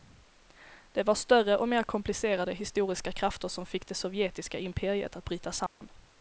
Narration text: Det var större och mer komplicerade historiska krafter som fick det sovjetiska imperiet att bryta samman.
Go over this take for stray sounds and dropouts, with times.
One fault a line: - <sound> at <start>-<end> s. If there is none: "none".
- dropout at 5.7-5.8 s